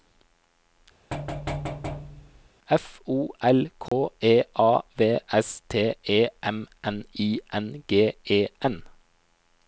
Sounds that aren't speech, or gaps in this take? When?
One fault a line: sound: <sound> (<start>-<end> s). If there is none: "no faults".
sound: thud (1.1-2.5 s)
sound: dropout (3.9-3.9 s)